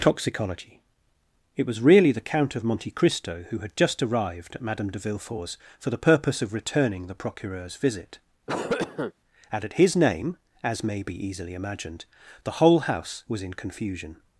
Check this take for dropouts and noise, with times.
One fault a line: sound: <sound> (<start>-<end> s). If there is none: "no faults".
sound: cough (8.5-9.1 s)